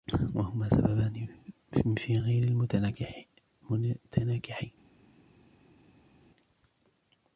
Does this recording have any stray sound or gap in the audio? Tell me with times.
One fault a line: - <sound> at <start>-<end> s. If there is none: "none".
none